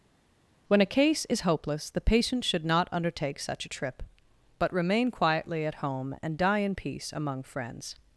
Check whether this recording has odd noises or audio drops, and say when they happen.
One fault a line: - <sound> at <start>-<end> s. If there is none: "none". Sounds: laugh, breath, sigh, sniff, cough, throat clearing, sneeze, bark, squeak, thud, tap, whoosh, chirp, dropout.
none